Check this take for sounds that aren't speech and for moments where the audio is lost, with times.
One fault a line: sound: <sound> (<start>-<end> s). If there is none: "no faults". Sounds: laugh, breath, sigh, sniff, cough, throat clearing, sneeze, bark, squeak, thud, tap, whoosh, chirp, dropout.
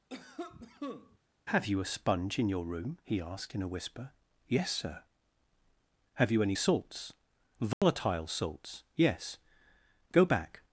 sound: cough (0.1-1.2 s)
sound: dropout (7.7-7.8 s)